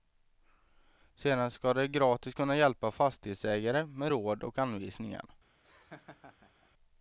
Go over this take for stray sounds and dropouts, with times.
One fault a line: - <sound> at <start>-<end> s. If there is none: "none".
- laugh at 5.6-6.7 s